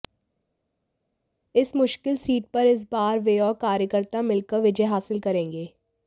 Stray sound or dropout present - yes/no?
no